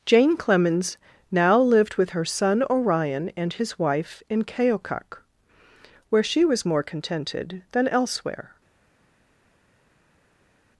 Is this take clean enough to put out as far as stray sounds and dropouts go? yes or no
yes